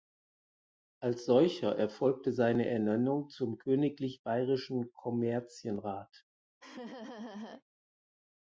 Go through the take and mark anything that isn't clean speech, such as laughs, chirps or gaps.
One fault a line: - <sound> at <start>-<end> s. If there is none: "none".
- laugh at 6.6-7.6 s